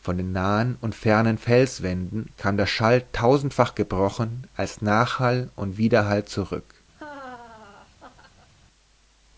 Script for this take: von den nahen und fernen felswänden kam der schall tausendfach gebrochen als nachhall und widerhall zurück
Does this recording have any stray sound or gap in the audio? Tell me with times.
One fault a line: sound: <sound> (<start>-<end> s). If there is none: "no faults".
sound: laugh (6.9-8.5 s)